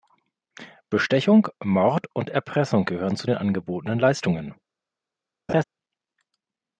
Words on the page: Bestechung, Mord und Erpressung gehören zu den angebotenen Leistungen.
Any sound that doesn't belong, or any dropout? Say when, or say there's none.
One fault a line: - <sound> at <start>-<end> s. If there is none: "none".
- laugh at 5.5-5.6 s